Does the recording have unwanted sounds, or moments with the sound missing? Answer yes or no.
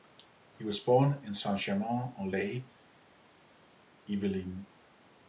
no